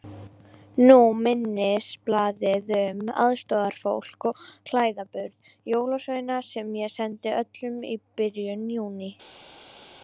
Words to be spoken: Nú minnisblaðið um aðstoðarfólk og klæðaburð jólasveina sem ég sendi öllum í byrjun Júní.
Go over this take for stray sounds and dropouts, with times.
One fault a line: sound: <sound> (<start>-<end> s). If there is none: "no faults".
no faults